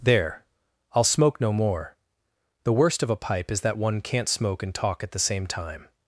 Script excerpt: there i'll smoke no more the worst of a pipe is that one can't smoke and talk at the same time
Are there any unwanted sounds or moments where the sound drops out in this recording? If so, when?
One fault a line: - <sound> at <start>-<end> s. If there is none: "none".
none